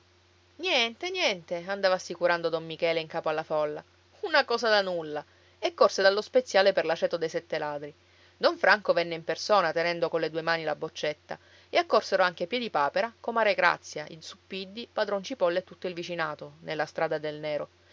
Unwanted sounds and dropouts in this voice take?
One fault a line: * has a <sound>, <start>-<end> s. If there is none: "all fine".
all fine